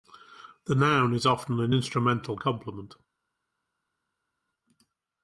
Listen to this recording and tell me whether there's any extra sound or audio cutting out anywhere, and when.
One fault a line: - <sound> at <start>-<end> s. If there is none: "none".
none